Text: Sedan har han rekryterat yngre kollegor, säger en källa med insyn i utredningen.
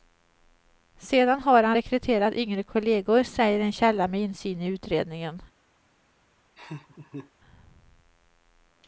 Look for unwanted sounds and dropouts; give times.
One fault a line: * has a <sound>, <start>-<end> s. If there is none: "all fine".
* has a laugh, 6.6-7.3 s